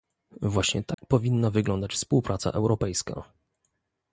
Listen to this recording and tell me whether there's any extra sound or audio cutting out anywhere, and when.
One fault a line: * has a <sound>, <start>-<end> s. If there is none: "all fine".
* has a dropout, 0.9-1.0 s